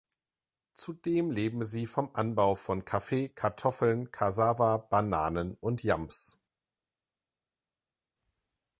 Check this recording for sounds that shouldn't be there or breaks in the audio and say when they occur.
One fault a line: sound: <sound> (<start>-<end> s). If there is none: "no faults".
no faults